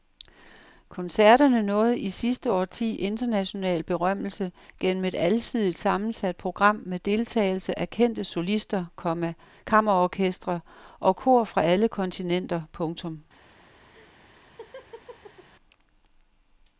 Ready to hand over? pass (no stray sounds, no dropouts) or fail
fail